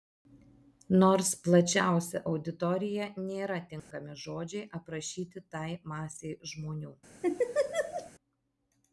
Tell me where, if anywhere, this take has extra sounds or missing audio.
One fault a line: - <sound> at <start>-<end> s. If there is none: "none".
- dropout at 3.8-3.9 s
- laugh at 7.2-8.1 s